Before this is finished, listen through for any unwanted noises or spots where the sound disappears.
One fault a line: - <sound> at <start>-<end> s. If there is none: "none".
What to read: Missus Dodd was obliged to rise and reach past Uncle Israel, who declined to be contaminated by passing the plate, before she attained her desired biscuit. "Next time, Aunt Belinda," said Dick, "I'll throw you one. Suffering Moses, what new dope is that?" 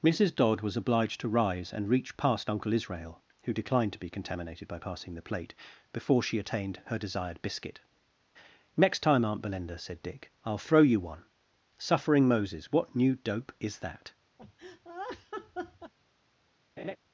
- laugh at 14.4-15.9 s
- laugh at 16.8-17.0 s